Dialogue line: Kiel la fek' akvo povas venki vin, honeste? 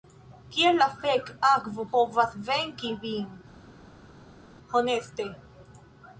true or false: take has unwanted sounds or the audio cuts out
false